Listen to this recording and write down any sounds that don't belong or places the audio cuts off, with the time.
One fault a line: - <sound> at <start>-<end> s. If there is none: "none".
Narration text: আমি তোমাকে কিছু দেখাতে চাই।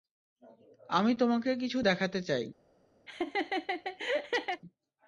- laugh at 3.1-4.6 s